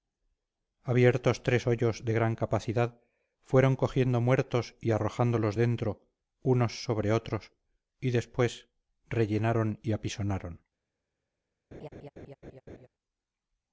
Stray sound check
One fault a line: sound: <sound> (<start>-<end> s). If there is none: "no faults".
sound: laugh (11.7-12.9 s)